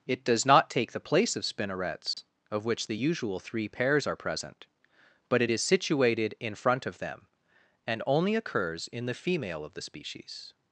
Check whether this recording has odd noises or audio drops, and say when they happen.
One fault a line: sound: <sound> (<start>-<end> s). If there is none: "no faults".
sound: dropout (2.1-2.2 s)